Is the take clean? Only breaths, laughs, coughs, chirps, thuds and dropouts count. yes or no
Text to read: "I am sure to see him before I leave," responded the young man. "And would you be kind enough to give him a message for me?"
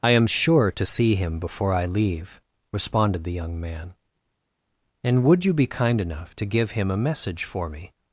yes